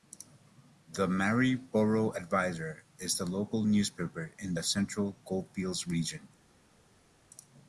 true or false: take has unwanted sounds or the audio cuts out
false